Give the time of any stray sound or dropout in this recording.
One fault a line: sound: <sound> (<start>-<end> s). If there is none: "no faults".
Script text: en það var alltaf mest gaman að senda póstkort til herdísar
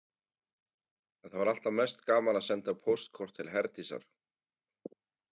no faults